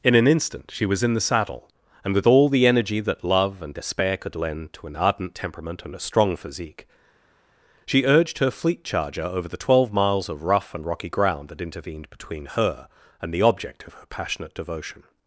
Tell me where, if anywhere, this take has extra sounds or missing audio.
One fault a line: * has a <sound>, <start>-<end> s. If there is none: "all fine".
all fine